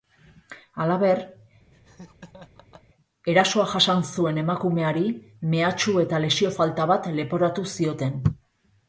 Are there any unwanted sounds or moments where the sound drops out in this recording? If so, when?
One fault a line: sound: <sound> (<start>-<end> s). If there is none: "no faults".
sound: laugh (1.7-2.8 s)